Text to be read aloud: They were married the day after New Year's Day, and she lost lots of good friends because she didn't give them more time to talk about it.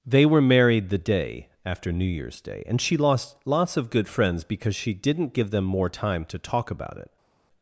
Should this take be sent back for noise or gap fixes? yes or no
no